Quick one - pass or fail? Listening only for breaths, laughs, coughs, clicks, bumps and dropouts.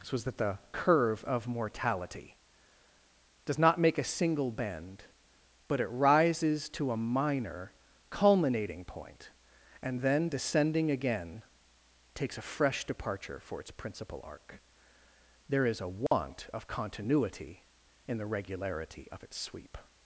fail